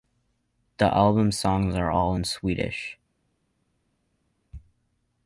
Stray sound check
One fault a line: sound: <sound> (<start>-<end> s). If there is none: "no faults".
no faults